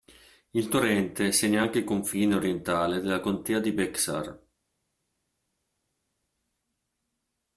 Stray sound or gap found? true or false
false